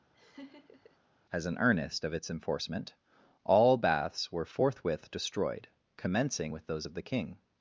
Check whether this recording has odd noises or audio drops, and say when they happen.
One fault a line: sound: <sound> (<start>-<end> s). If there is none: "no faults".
sound: laugh (0.1-1.0 s)